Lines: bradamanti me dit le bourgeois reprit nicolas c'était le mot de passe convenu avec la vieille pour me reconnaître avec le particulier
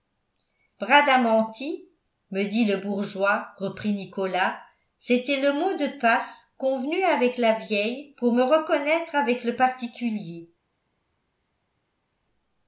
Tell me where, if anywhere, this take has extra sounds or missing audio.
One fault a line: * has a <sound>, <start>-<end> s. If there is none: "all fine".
all fine